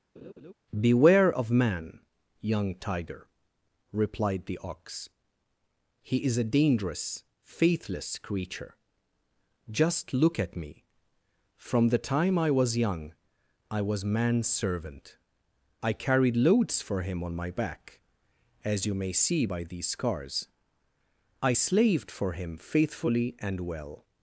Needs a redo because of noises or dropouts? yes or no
yes